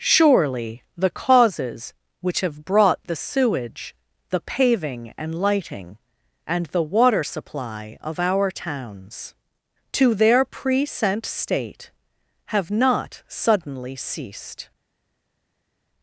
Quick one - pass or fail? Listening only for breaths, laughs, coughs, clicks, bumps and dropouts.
pass